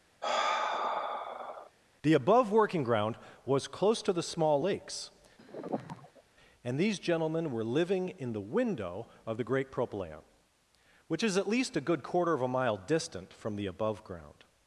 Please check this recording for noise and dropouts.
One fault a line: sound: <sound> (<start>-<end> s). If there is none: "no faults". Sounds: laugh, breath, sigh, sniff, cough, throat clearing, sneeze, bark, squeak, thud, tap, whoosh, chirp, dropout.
sound: sigh (0.2-1.7 s)
sound: sigh (5.4-6.2 s)